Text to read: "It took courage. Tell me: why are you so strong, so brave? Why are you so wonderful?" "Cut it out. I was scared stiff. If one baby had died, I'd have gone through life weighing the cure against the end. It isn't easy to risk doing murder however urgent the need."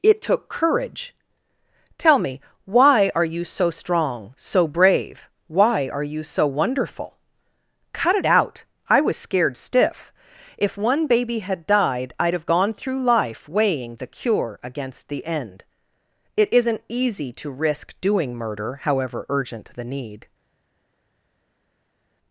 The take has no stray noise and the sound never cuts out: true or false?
true